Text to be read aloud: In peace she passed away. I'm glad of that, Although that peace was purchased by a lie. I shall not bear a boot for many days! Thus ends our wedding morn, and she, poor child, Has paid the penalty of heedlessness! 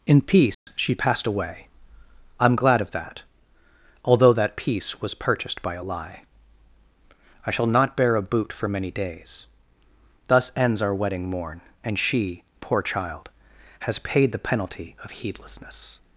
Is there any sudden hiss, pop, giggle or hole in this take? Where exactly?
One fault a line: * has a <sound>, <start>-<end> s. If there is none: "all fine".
* has a dropout, 0.5-0.7 s